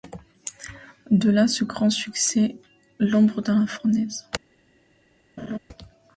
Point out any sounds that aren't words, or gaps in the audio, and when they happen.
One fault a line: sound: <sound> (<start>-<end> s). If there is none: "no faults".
sound: laugh (5.4-5.6 s)